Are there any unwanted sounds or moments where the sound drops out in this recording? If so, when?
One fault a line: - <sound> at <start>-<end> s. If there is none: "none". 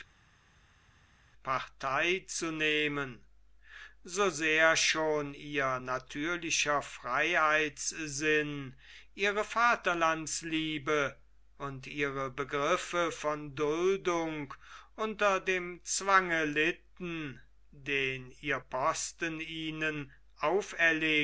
none